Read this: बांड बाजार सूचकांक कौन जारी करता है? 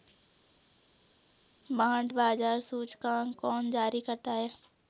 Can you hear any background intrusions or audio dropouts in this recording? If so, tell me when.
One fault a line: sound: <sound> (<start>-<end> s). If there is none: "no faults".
no faults